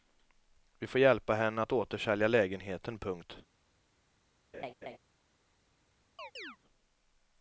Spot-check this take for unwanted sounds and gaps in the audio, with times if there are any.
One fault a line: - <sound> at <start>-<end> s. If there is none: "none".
- laugh at 4.5-5.0 s
- chirp at 6.2-6.6 s